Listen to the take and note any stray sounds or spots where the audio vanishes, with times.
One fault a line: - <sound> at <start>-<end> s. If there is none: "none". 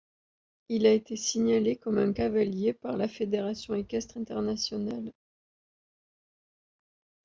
none